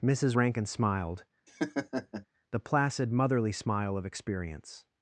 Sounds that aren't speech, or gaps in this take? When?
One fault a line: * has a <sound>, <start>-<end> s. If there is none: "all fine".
* has a laugh, 1.5-2.3 s